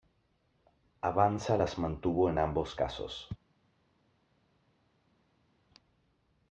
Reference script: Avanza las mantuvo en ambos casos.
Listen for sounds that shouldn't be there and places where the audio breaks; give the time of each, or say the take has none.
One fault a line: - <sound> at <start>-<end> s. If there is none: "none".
none